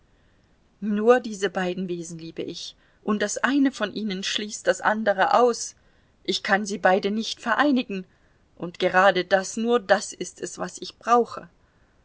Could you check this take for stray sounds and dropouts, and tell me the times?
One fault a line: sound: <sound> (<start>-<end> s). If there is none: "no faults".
no faults